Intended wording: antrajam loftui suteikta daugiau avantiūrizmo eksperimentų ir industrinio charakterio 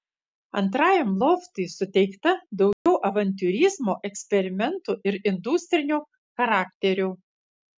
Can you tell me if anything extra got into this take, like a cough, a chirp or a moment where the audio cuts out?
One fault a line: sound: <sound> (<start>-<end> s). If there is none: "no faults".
sound: dropout (2.7-2.9 s)